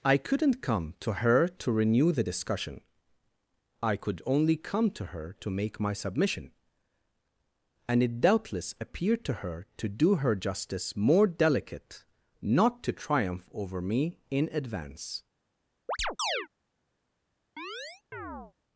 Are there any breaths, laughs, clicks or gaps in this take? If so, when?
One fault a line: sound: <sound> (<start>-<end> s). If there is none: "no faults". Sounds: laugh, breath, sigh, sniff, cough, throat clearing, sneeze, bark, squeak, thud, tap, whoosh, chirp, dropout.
sound: chirp (15.9-16.5 s)
sound: chirp (17.6-18.5 s)